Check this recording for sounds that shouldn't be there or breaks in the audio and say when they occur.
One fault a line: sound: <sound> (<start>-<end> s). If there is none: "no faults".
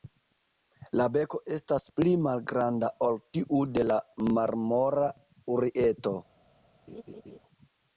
sound: laugh (6.9-7.4 s)